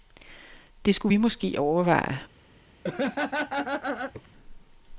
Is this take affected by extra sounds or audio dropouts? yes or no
yes